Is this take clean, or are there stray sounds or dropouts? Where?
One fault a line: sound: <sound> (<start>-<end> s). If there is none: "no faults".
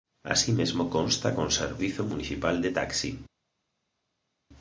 no faults